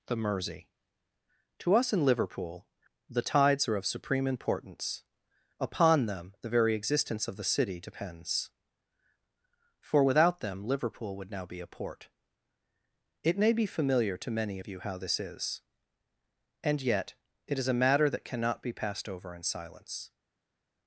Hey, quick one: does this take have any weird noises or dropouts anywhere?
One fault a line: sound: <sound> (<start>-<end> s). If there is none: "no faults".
no faults